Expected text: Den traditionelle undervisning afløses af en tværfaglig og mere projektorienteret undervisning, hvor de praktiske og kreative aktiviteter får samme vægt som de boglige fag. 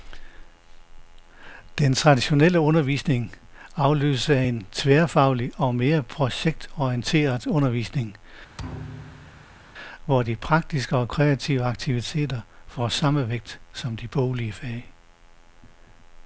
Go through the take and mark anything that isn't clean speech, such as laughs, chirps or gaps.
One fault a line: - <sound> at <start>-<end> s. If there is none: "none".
- thud at 8.6-9.6 s